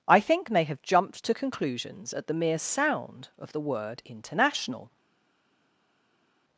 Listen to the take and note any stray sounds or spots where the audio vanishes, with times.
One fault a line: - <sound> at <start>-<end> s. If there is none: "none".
none